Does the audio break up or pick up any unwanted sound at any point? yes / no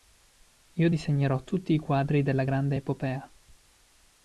no